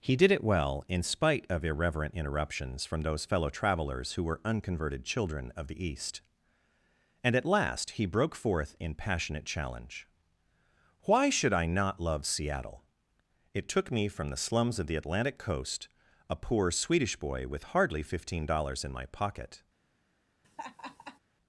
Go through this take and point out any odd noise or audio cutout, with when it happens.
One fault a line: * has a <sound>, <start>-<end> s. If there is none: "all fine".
* has a laugh, 20.4-21.2 s